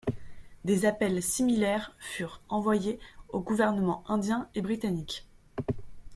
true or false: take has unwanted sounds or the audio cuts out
false